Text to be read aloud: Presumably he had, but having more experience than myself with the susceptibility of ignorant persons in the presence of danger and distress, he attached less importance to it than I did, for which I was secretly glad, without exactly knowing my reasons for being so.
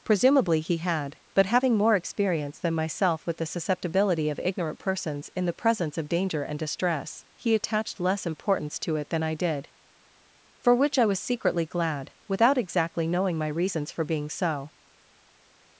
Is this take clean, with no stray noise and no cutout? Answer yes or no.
yes